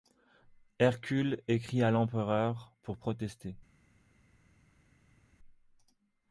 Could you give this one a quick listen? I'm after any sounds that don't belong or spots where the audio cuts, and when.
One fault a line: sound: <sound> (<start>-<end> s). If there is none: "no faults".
no faults